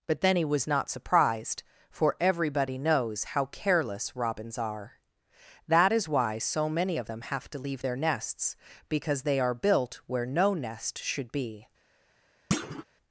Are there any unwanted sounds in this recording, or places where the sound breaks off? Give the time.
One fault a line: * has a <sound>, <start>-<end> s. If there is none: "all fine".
* has a thud, 12.5-12.8 s